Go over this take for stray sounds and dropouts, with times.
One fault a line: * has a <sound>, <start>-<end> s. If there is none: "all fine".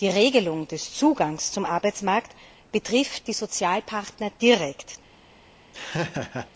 * has a laugh, 5.7-6.5 s